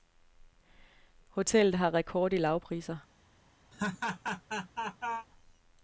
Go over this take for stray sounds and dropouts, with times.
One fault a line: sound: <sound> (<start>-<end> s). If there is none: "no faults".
sound: laugh (3.7-5.3 s)